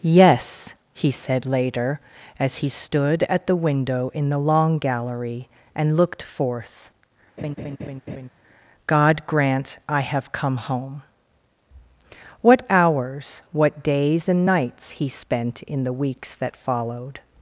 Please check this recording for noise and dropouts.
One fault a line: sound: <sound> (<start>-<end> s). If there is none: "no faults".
sound: laugh (7.4-8.3 s)